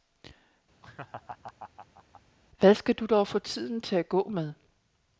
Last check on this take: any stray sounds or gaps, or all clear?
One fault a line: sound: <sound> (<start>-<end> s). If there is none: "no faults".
sound: laugh (0.8-2.2 s)